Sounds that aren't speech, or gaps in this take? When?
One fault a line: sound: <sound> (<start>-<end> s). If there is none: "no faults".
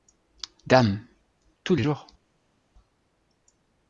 no faults